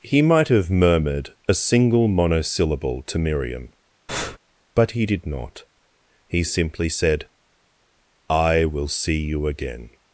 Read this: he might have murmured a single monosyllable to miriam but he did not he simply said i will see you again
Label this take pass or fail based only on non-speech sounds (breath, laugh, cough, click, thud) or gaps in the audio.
fail